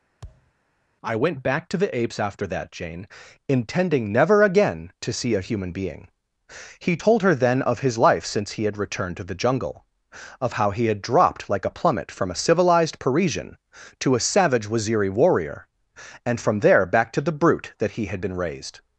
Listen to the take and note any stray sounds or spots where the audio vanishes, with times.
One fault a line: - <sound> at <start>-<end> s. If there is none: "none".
- thud at 0.2-0.5 s